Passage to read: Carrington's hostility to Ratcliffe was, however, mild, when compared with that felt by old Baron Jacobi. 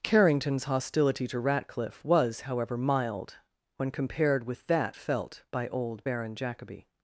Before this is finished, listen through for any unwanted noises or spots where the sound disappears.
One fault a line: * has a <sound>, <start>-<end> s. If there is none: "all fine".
all fine